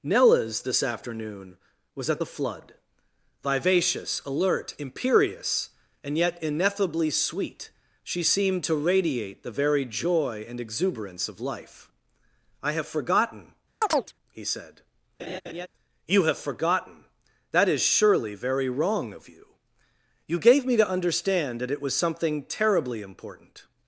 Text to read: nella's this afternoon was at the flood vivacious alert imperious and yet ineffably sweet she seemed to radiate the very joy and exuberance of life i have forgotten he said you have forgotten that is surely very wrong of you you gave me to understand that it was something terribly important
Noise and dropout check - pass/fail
fail